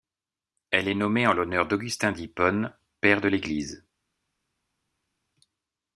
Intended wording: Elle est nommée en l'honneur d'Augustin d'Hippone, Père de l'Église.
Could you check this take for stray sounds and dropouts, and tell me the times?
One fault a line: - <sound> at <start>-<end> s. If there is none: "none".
none